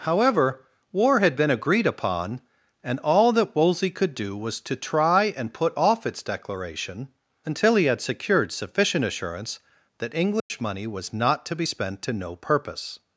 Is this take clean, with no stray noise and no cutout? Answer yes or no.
no